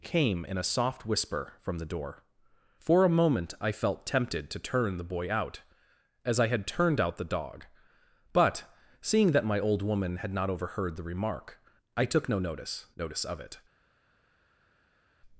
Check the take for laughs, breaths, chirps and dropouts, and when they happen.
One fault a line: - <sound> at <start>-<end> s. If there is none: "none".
none